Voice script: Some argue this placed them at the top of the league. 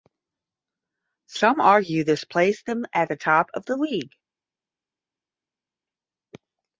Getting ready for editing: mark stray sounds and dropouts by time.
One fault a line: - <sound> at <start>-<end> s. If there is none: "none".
none